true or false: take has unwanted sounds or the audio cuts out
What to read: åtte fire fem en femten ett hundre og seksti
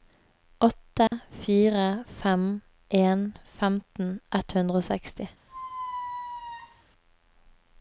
true